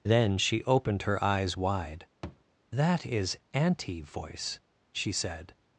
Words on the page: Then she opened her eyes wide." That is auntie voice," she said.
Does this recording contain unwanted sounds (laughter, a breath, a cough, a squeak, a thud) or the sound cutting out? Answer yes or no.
yes